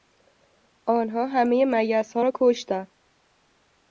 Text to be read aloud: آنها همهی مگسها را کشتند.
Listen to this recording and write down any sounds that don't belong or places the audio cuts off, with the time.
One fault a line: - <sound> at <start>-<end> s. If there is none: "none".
none